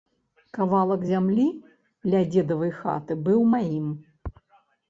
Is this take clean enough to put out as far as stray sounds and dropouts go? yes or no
yes